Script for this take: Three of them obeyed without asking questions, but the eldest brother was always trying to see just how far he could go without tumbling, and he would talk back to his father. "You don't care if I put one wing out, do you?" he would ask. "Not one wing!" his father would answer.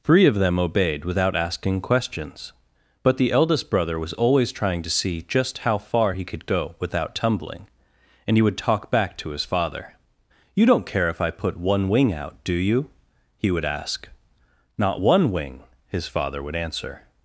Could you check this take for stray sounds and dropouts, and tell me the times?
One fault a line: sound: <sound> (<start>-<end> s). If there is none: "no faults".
no faults